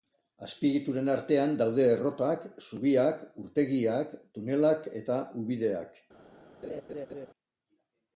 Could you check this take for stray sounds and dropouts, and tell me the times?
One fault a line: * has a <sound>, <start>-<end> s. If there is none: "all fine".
* has a laugh, 6.6-7.3 s